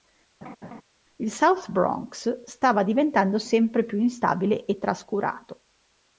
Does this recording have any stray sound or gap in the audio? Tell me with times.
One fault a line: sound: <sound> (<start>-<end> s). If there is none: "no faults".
sound: laugh (0.4-0.8 s)